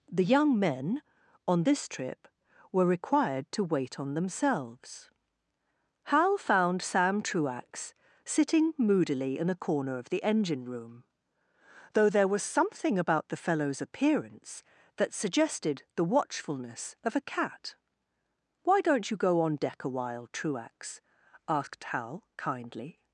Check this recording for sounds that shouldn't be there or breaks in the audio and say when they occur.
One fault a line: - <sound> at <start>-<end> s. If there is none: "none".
none